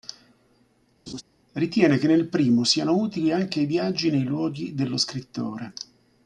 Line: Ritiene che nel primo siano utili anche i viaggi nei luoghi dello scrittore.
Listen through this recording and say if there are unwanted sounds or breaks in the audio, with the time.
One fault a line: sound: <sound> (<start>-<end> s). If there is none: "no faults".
sound: laugh (1.1-1.2 s)